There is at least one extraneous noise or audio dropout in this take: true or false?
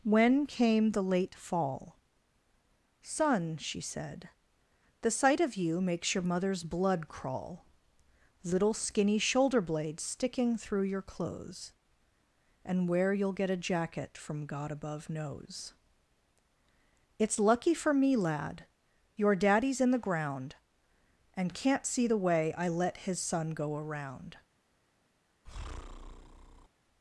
true